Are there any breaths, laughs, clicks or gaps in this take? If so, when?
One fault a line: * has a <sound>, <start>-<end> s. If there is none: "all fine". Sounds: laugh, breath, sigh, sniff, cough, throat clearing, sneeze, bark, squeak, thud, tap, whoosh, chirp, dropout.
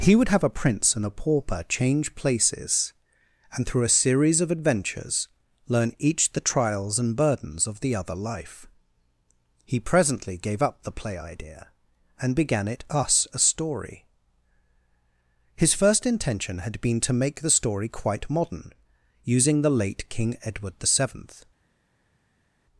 all fine